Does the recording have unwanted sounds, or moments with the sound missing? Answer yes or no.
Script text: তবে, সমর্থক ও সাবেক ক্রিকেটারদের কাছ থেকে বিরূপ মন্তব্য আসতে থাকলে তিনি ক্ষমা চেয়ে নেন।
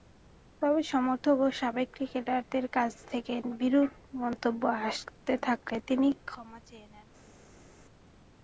no